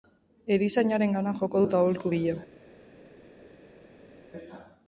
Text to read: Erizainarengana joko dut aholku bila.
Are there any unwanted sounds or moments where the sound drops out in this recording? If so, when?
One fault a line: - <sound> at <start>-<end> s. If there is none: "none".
none